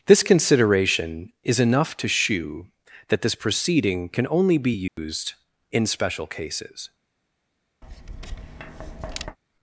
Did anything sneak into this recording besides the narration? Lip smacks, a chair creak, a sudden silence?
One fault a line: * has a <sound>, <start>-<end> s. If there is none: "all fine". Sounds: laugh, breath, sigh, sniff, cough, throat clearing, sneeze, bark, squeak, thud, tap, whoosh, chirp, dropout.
* has a dropout, 4.9-5.0 s
* has a tap, 7.8-9.4 s